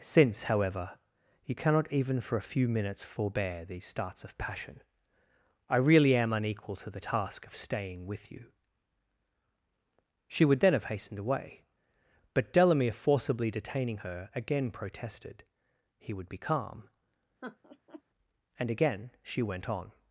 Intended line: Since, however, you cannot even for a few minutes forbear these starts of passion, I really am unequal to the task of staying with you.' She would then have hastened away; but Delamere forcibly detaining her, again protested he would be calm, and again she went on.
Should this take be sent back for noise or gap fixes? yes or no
yes